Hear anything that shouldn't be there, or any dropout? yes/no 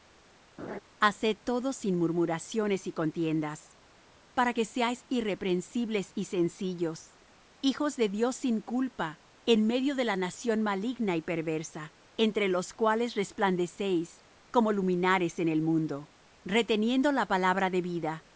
yes